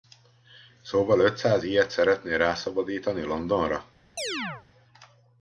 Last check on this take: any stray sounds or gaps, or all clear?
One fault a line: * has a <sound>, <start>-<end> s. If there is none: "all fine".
* has a chirp, 4.2-4.7 s